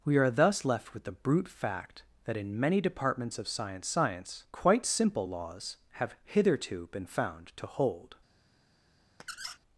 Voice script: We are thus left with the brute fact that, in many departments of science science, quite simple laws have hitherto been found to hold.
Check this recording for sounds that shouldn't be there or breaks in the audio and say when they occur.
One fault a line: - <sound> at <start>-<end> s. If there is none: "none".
- squeak at 9.2-9.6 s